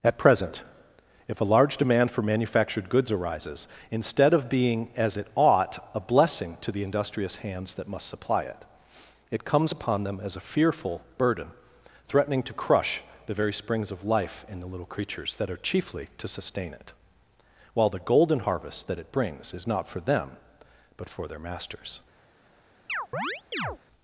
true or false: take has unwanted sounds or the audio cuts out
true